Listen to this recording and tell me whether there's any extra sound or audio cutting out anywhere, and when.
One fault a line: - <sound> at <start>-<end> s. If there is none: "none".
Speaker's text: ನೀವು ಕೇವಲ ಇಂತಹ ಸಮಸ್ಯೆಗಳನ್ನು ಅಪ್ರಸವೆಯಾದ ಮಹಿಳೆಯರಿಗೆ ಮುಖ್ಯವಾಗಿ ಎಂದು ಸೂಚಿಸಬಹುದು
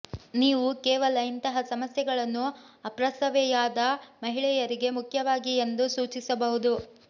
none